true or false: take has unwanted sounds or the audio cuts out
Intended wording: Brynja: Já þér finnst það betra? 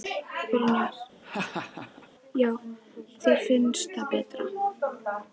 true